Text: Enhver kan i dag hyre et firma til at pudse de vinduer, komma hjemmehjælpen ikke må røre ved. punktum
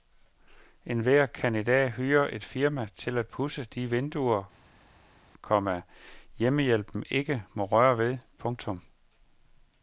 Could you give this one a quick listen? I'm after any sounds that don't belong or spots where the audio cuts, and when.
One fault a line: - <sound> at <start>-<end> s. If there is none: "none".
none